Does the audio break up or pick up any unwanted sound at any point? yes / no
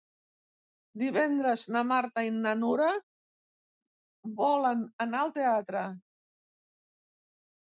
no